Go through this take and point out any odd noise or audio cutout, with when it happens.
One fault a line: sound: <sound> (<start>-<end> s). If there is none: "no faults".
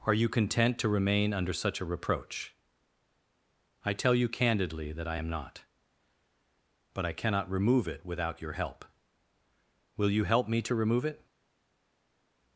no faults